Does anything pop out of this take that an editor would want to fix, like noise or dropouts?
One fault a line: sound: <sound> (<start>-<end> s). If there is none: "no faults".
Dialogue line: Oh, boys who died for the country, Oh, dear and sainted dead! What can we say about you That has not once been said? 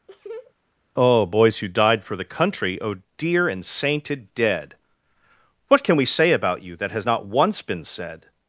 sound: laugh (0.1-0.5 s)